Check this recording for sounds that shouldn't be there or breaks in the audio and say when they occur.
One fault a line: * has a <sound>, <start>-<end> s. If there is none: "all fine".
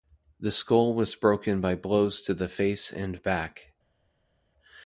all fine